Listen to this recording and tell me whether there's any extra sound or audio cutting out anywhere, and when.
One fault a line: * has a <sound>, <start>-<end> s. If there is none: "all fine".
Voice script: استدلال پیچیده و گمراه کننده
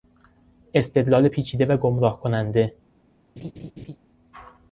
* has a laugh, 3.4-4.0 s